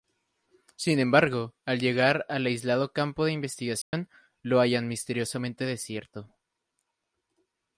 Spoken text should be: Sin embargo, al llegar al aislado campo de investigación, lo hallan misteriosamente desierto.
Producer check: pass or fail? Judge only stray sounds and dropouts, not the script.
fail